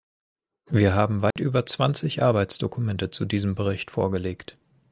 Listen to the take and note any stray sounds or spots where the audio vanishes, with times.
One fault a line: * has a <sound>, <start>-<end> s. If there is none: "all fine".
* has a dropout, 1.3-1.4 s